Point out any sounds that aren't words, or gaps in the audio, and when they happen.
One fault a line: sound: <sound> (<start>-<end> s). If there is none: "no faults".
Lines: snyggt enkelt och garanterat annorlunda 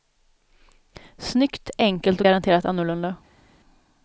no faults